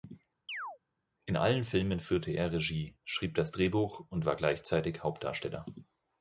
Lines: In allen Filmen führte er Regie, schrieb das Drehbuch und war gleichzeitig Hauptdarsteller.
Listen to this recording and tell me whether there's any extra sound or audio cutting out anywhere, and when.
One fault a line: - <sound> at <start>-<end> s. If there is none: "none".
- chirp at 0.5-0.8 s